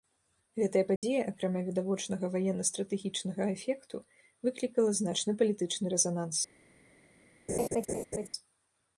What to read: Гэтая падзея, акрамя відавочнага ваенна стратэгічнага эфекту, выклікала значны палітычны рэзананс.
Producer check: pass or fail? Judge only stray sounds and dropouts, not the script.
fail